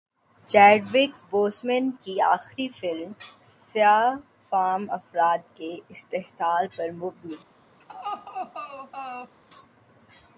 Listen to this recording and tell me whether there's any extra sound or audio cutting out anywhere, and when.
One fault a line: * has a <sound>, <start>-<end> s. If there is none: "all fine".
* has a laugh, 7.8-9.3 s